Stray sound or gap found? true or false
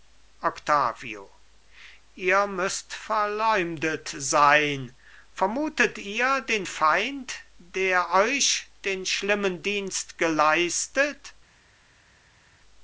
false